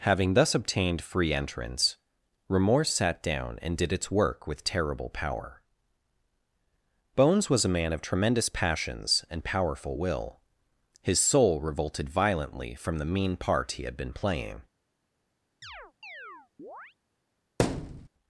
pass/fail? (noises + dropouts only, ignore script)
fail